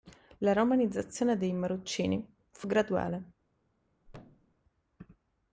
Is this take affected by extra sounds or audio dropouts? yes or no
yes